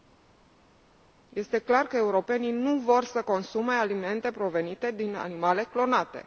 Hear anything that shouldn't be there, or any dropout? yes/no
no